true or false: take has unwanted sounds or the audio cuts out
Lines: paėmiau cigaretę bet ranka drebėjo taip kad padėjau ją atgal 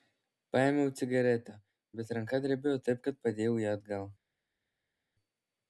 false